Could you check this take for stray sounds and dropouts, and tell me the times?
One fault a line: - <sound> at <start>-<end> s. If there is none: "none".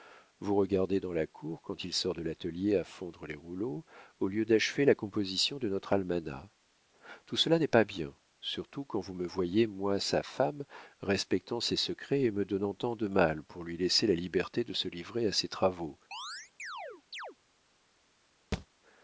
- chirp at 16.1-17.4 s
- thud at 18.5-18.7 s